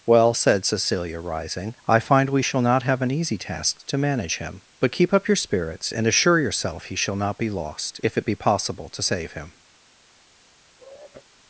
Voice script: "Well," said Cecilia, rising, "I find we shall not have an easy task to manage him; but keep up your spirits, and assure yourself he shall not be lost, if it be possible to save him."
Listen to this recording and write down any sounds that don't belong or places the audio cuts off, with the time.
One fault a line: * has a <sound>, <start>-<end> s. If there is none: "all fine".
* has a sigh, 10.8-11.3 s